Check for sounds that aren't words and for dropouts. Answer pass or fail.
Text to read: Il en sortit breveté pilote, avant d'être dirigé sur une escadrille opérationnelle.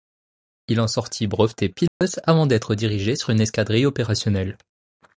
fail